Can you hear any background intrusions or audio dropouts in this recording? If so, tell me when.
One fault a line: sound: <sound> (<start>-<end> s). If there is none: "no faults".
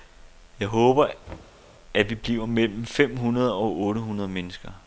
sound: thud (1.3-1.6 s)